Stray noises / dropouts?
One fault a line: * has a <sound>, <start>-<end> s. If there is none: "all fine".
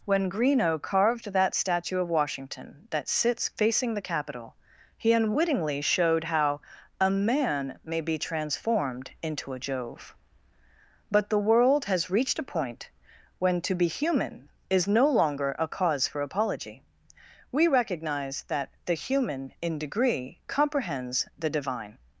all fine